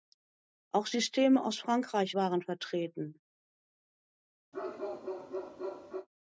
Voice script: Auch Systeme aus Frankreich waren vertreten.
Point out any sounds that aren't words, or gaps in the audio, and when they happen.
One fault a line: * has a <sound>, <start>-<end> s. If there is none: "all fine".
* has a bark, 4.5-6.1 s